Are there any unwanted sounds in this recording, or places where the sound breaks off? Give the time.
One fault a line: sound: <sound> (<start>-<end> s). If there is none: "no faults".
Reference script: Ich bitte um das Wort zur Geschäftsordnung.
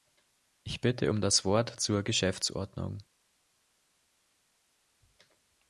no faults